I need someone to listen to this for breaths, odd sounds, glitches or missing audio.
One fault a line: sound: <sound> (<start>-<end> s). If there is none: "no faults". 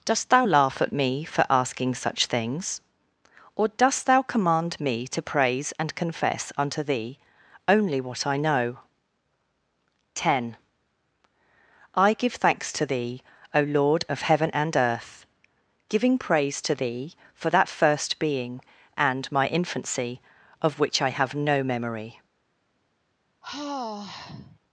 sound: sigh (23.4-24.6 s)